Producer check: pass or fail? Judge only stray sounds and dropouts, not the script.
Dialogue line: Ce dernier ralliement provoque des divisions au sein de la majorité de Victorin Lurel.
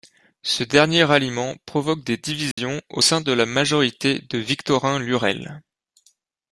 fail